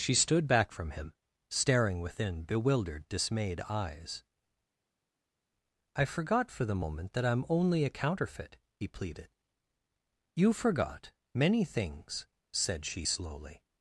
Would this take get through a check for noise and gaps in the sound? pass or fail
pass